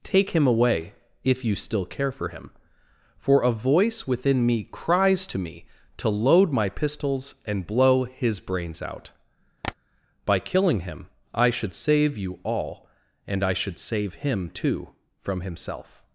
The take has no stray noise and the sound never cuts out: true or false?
false